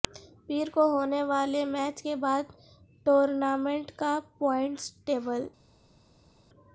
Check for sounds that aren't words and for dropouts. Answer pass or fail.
pass